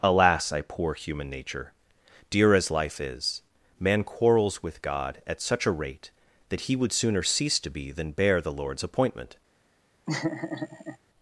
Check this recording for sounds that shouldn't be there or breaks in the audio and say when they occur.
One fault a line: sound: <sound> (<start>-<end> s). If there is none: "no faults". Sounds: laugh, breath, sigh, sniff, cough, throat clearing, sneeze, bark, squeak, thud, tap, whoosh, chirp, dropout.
sound: laugh (10.1-11.0 s)